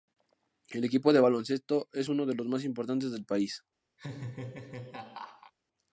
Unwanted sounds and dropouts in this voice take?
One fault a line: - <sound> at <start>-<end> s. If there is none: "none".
- laugh at 4.0-5.5 s